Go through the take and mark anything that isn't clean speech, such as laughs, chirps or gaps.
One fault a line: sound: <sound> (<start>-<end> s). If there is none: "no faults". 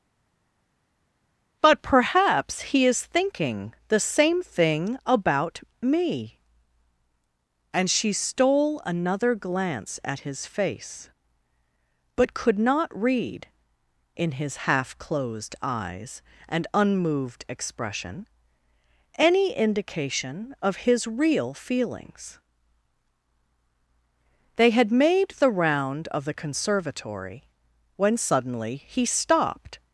no faults